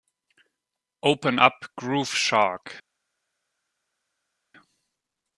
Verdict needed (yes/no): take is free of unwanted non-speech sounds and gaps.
yes